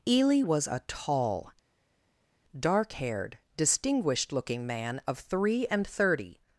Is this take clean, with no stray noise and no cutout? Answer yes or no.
yes